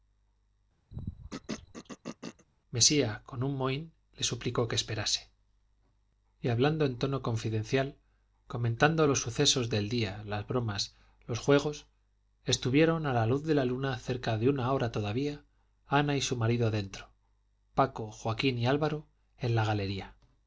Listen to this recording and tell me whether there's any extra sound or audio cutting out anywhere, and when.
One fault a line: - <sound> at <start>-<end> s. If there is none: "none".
- throat clearing at 0.9-2.5 s